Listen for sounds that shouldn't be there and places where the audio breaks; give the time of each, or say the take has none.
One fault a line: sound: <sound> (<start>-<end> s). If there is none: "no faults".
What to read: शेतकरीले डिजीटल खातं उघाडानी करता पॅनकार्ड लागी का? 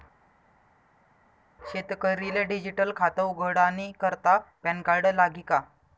no faults